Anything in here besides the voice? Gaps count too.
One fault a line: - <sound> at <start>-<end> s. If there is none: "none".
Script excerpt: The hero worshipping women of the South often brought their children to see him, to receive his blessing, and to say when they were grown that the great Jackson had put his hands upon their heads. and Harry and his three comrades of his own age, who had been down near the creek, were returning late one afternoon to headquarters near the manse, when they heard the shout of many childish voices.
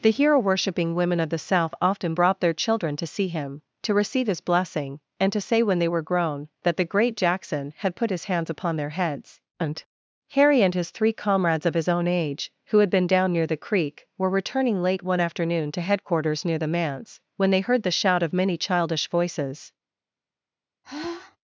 - sigh at 20.8-21.4 s